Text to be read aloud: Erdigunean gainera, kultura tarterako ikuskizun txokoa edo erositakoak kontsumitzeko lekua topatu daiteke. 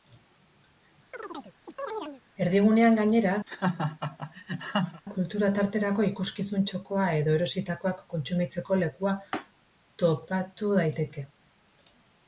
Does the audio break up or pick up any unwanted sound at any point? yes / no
yes